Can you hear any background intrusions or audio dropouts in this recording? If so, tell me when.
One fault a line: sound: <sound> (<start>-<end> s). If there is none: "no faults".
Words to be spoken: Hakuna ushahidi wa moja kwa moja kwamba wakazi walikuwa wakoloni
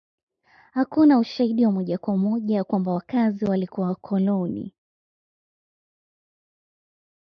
no faults